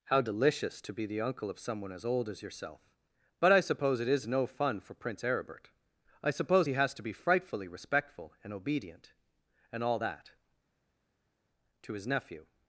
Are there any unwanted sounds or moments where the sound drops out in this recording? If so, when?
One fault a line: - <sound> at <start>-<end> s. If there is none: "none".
none